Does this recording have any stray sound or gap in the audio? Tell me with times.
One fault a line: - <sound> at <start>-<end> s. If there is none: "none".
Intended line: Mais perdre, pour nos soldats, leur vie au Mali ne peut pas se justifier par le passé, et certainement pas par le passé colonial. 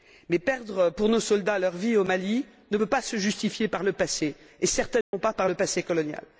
- dropout at 5.0-5.1 s